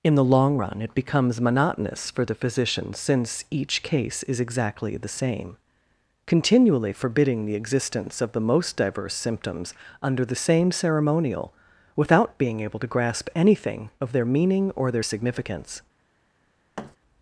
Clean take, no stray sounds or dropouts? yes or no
no